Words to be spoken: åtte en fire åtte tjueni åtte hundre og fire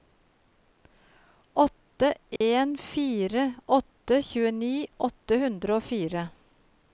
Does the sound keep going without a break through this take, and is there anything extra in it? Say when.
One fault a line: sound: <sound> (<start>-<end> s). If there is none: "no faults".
sound: dropout (2.4-2.4 s)